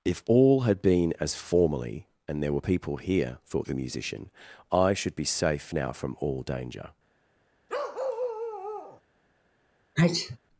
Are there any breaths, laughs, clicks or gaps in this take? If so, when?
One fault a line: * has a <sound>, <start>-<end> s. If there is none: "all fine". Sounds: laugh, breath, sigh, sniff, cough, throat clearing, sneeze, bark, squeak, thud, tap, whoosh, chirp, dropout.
* has a bark, 7.7-9.0 s
* has a sneeze, 10.0-10.4 s